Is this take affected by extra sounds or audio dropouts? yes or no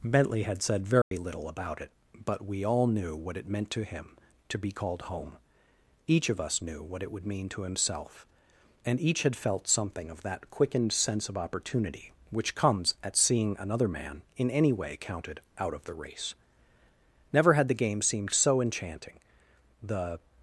yes